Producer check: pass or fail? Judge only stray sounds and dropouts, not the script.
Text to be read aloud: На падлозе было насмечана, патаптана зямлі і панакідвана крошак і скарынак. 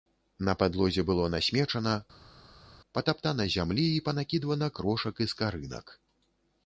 pass